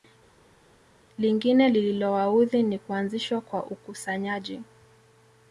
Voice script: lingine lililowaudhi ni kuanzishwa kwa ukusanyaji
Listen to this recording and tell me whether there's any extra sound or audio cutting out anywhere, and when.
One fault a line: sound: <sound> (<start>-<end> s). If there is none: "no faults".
no faults